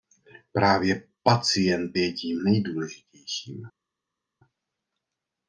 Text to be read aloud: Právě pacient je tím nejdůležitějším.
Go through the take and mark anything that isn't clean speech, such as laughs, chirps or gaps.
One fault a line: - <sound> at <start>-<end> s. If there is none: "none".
none